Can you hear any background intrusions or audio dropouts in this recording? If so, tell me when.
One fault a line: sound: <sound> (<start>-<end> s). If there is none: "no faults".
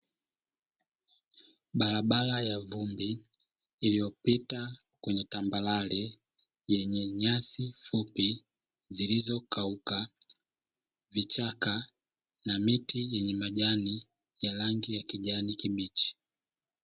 no faults